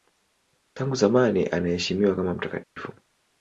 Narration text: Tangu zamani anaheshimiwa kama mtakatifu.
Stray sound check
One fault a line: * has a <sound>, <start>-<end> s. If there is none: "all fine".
* has a dropout, 2.6-2.8 s